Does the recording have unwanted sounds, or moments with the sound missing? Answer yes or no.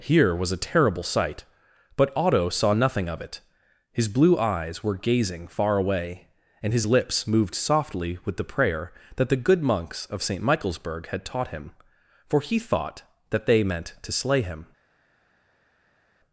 no